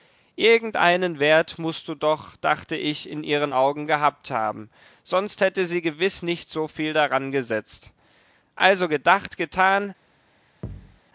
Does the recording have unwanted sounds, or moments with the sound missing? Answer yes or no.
yes